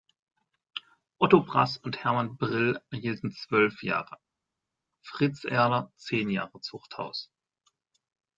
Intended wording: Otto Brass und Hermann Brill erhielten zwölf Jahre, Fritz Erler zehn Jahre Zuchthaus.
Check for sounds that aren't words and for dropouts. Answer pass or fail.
pass